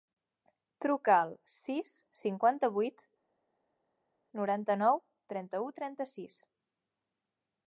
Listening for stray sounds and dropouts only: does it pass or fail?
pass